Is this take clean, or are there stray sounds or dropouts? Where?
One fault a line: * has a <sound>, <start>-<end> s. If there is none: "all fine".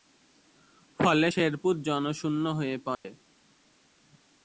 * has a dropout, 2.9-3.0 s